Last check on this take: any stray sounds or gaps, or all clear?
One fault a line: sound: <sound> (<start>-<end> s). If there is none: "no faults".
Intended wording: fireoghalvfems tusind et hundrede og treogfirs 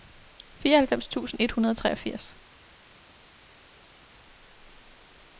no faults